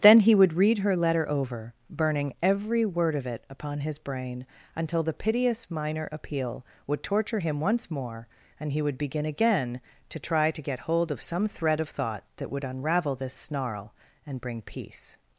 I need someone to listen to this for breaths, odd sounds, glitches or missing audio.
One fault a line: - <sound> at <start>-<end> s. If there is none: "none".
none